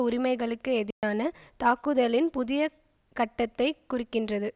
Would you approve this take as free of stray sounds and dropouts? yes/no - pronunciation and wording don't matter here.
no